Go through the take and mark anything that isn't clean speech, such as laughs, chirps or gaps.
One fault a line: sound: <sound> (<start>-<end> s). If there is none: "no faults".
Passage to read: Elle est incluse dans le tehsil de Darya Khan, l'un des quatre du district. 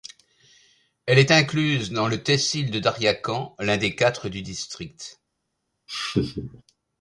sound: laugh (5.9-6.6 s)